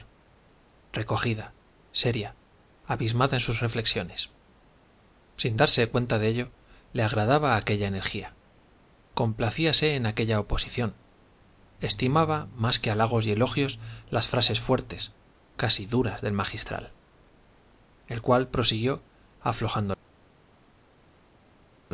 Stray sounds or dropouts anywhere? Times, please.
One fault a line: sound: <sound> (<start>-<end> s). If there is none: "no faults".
no faults